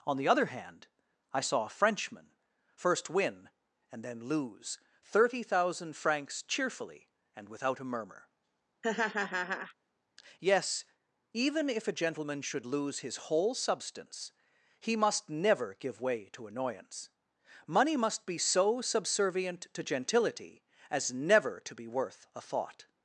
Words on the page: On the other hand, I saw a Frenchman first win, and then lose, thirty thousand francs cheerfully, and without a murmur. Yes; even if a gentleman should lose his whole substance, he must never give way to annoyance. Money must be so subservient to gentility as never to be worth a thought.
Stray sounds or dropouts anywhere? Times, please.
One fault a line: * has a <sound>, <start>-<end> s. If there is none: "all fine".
* has a laugh, 8.8-9.7 s